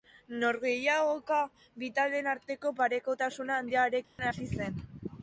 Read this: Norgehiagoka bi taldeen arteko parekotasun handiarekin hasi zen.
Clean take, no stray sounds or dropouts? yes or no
no